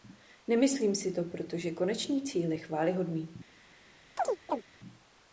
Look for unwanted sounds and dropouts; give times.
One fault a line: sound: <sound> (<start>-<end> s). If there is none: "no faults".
sound: chirp (4.2-4.6 s)